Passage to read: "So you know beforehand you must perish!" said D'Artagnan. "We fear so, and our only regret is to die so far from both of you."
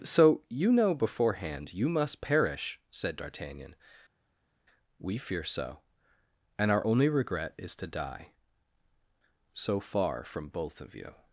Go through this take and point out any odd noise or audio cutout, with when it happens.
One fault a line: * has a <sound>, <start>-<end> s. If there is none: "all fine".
all fine